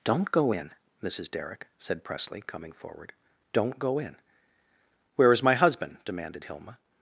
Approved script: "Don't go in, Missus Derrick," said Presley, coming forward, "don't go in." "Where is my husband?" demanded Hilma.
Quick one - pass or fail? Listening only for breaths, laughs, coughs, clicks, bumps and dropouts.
pass